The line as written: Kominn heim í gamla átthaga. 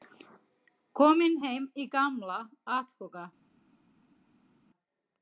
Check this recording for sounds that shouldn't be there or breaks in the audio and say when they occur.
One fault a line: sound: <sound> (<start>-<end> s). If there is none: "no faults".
no faults